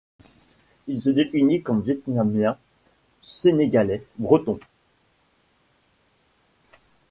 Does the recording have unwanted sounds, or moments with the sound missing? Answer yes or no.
no